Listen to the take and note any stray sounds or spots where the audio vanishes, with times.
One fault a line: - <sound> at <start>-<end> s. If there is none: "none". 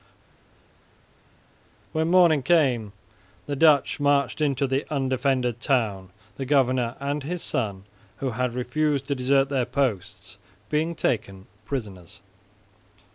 none